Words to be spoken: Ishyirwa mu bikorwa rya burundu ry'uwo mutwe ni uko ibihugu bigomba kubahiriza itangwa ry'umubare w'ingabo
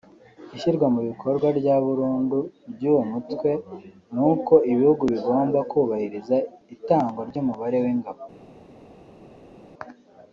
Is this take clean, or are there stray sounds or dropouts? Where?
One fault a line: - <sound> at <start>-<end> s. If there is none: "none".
none